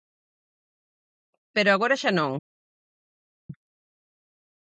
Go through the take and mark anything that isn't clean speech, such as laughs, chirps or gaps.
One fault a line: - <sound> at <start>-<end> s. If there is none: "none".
none